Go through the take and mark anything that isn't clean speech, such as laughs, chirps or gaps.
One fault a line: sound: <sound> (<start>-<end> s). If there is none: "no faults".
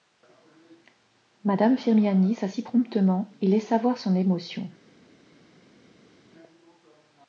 no faults